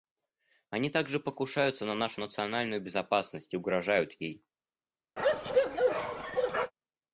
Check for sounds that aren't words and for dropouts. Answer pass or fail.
fail